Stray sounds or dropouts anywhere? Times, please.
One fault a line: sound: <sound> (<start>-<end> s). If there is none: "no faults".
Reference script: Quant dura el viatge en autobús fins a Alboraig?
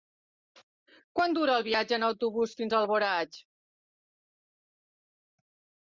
no faults